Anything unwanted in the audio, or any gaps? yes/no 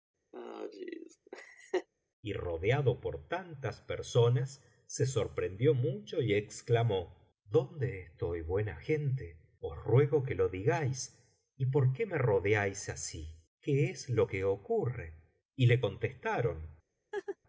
yes